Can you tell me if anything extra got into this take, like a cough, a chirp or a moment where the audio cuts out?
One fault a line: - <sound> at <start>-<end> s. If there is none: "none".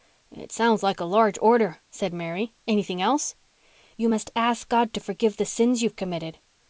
none